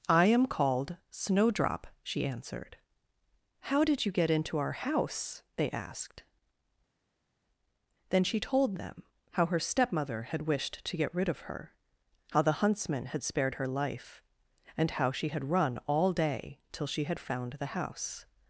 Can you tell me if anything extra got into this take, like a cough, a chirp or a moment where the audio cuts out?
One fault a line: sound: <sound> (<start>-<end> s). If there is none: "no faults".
no faults